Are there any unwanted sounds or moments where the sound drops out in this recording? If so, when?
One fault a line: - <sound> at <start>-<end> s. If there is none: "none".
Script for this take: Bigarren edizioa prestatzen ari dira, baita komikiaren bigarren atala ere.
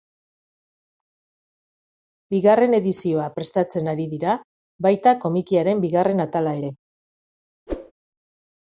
- whoosh at 7.7-7.9 s